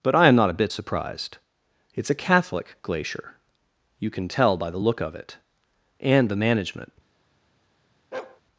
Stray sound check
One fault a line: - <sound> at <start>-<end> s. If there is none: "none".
- bark at 8.1-8.4 s